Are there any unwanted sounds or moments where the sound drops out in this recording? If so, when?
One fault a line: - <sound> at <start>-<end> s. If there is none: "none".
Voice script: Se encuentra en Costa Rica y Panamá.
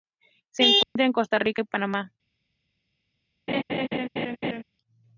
- dropout at 0.8-1.0 s
- laugh at 3.5-4.6 s